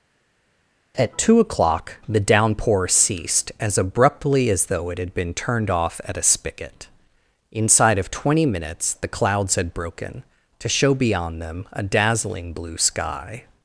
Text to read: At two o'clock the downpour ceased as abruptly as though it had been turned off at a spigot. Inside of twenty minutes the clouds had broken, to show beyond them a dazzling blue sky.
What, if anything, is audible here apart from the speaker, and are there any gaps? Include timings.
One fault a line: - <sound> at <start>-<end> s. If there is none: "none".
none